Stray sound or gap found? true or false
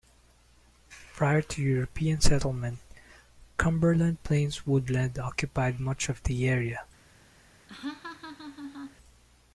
true